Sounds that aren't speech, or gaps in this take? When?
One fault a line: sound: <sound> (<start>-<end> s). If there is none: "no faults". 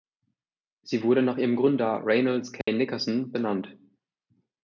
sound: dropout (2.6-2.7 s)